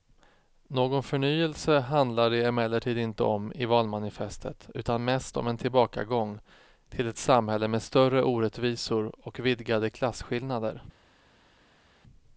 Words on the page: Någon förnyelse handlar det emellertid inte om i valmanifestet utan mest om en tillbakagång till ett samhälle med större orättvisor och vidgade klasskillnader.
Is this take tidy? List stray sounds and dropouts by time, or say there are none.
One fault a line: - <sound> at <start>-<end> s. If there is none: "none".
none